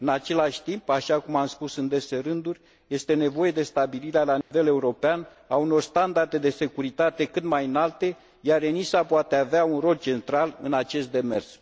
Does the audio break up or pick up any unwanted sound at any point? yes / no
yes